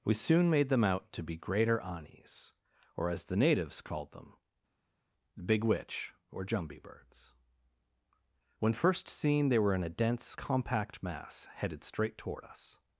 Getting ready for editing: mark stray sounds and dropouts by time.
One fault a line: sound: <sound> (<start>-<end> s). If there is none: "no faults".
no faults